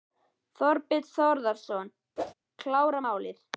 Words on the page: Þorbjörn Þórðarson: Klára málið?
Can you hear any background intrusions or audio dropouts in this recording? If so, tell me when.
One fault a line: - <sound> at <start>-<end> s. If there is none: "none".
- whoosh at 2.2-2.3 s